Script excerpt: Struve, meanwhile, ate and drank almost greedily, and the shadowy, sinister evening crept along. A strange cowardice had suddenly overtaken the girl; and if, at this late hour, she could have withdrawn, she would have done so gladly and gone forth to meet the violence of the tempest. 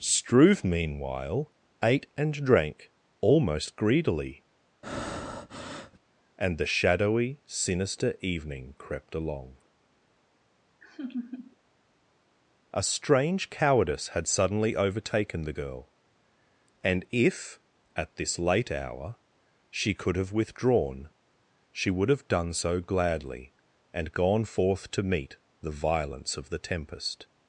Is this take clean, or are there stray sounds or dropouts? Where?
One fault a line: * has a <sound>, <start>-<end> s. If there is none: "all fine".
* has a breath, 4.8-6.0 s
* has a laugh, 10.8-11.6 s